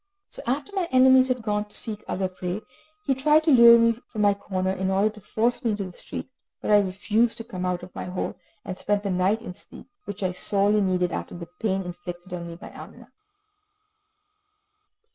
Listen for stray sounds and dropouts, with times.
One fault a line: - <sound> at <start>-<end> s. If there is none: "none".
none